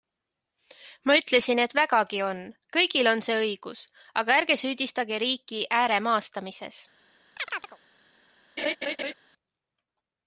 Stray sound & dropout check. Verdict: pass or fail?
fail